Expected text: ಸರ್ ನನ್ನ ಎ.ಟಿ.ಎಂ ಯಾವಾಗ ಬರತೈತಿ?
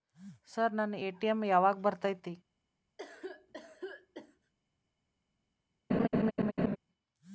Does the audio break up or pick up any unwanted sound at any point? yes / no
yes